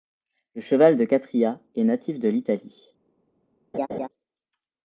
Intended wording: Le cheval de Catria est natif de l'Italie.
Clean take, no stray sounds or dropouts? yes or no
no